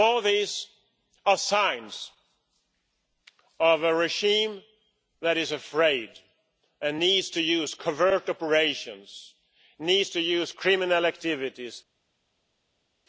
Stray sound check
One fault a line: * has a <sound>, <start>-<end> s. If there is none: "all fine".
all fine